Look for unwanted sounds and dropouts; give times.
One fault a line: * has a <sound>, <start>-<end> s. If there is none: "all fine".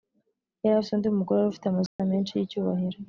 * has a dropout, 1.9-2.0 s